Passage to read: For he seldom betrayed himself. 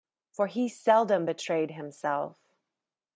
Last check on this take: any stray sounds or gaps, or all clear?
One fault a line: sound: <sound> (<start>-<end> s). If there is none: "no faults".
no faults